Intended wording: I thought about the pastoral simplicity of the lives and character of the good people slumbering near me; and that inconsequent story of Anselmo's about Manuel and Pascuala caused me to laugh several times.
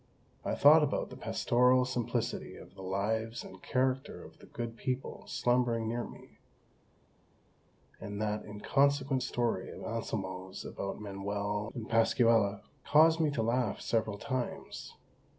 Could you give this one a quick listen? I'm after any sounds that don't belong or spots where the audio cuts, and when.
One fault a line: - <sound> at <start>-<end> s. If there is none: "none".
none